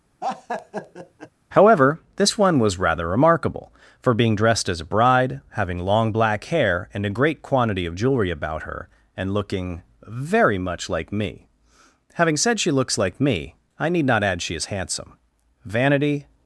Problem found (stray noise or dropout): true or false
true